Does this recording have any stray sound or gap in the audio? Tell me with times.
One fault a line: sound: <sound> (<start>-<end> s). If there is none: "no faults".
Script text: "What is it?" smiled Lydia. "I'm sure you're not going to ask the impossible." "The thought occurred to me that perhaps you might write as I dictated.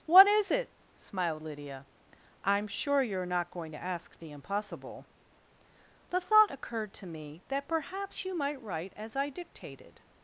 no faults